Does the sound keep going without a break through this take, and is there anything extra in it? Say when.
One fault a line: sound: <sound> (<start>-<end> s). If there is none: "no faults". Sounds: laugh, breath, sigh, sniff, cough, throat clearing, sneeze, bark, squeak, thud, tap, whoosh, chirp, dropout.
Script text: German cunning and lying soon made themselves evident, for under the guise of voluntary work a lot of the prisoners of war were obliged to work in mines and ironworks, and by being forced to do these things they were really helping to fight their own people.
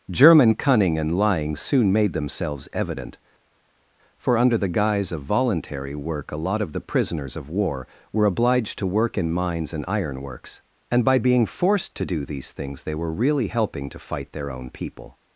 no faults